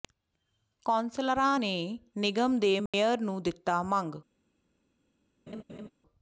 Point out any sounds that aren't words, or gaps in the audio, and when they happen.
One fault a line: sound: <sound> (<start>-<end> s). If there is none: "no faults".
sound: dropout (2.9-2.9 s)
sound: laugh (5.5-5.9 s)